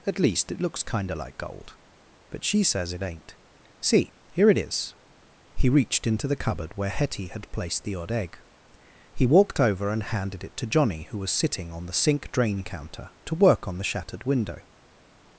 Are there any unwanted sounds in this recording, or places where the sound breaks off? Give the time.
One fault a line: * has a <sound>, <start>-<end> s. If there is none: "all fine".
all fine